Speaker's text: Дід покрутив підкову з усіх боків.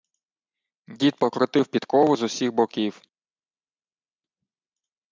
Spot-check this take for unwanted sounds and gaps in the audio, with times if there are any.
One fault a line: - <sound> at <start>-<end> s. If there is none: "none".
none